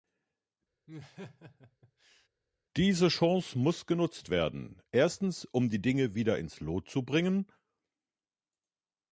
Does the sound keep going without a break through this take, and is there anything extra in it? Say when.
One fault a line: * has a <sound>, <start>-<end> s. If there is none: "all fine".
* has a laugh, 0.9-2.3 s